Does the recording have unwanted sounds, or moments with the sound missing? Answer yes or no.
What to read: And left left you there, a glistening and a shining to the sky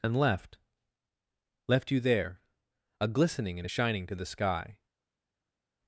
no